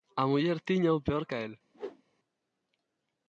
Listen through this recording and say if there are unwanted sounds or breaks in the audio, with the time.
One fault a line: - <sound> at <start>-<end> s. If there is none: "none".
- whoosh at 1.7-2.0 s